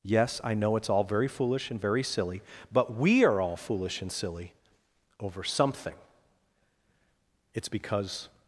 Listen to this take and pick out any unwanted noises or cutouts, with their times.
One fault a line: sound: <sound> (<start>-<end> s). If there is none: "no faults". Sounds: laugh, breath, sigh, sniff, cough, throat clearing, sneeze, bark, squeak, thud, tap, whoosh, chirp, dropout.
no faults